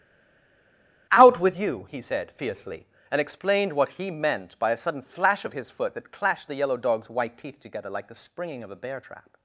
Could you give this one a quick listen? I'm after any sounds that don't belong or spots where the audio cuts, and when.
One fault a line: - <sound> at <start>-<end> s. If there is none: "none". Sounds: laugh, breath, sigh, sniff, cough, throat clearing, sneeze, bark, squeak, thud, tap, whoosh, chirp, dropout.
none